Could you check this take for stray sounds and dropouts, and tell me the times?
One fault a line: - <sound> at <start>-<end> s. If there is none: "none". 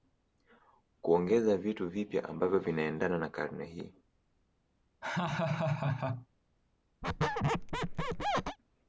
- laugh at 5.0-6.3 s
- squeak at 7.0-8.6 s